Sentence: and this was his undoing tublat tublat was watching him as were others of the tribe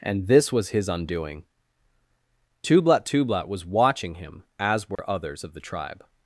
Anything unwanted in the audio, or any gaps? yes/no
yes